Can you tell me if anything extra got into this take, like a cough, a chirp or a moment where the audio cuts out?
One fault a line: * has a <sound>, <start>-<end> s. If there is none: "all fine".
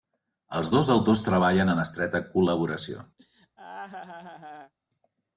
* has a laugh, 3.2-4.7 s